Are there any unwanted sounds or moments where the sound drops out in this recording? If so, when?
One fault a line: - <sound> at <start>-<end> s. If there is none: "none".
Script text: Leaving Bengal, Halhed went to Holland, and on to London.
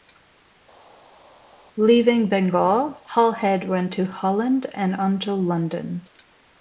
none